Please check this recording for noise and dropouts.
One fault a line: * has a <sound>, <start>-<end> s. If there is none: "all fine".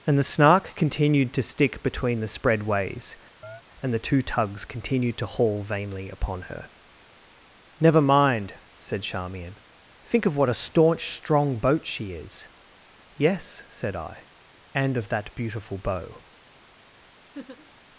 * has a chirp, 3.4-3.6 s
* has a laugh, 17.3-17.7 s